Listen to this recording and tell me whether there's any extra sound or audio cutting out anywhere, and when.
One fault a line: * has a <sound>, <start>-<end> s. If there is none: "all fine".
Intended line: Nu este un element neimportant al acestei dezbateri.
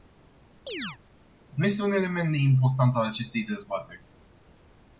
* has a chirp, 0.7-1.0 s